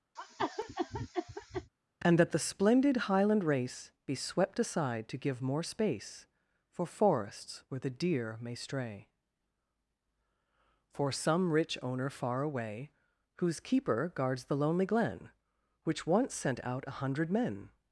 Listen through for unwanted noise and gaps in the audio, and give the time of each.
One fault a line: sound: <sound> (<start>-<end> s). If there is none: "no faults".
sound: cough (0.2-1.7 s)